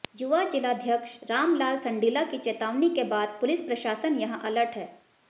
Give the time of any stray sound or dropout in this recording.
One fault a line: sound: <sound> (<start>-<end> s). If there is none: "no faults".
no faults